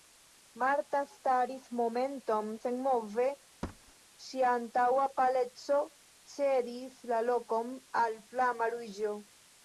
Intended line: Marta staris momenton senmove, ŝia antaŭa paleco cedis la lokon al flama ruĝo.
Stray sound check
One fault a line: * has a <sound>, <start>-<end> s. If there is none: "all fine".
* has a thud, 3.6-3.9 s